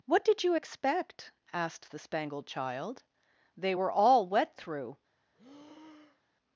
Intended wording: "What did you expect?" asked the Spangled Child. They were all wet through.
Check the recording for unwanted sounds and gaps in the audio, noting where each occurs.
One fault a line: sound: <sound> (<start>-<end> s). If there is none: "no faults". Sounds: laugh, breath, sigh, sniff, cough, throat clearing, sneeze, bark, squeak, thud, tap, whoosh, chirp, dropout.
sound: breath (5.3-6.4 s)